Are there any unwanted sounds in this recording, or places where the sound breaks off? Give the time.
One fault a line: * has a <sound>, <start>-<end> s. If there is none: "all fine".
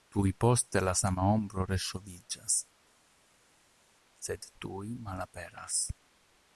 all fine